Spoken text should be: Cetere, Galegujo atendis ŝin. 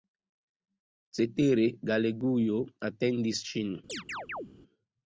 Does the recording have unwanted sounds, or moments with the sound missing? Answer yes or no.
yes